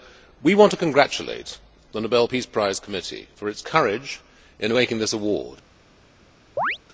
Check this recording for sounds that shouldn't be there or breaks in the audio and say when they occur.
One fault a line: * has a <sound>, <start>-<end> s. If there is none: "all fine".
* has a chirp, 6.6-6.8 s